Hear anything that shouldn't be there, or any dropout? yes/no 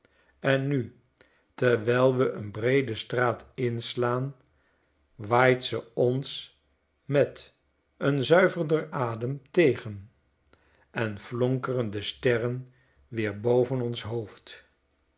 no